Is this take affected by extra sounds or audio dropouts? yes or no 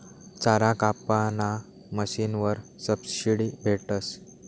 no